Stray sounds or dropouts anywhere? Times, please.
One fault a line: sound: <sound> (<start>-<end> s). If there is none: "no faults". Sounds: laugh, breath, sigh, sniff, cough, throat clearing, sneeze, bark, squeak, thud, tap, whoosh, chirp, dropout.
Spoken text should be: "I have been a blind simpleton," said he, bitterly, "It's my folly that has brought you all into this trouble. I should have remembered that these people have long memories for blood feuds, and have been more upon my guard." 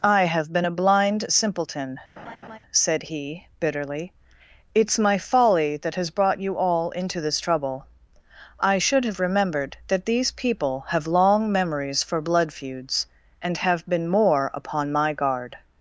sound: laugh (2.2-2.6 s)